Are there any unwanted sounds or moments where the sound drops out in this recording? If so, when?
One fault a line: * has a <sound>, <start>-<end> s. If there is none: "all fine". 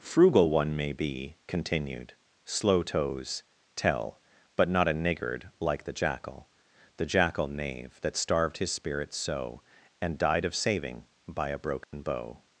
* has a dropout, 11.8-11.9 s